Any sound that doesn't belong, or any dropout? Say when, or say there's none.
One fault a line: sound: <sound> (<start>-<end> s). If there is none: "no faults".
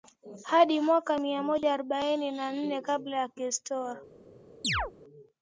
sound: chirp (4.6-4.9 s)